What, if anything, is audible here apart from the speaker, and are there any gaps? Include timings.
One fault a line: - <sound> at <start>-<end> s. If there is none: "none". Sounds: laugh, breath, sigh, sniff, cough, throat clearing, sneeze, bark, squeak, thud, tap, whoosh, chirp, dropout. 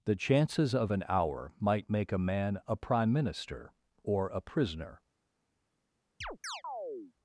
- chirp at 6.2-7.1 s